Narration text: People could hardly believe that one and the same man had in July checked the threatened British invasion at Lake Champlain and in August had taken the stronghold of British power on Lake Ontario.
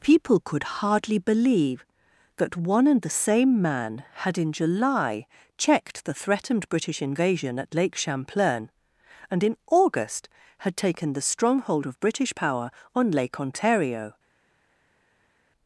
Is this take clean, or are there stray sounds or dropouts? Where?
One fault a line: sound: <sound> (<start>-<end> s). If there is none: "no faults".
no faults